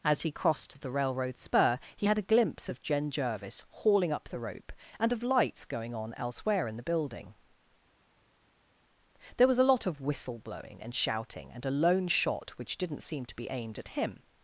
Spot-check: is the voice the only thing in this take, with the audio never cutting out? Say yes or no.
yes